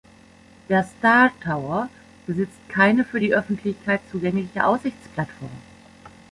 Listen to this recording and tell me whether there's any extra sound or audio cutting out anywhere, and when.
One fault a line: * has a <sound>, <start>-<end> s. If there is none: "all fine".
all fine